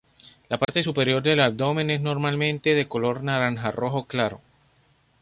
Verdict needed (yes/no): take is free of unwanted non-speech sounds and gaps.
no